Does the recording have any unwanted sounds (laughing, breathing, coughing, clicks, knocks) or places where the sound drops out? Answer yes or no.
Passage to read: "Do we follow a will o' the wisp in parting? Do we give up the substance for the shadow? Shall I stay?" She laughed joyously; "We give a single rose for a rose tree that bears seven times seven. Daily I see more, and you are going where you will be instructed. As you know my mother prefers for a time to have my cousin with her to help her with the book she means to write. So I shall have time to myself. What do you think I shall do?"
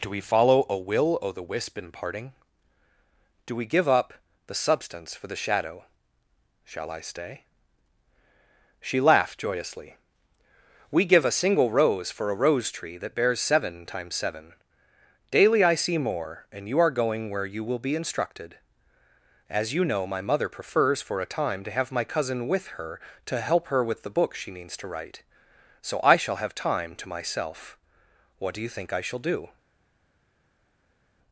no